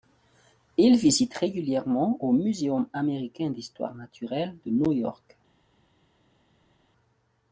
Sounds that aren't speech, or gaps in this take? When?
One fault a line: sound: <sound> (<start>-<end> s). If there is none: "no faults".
no faults